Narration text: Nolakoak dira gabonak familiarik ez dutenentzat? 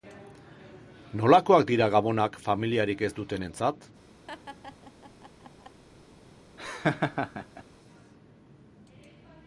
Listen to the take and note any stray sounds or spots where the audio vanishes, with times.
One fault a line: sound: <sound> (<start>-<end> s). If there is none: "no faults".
sound: laugh (4.3-5.8 s)
sound: laugh (6.6-7.6 s)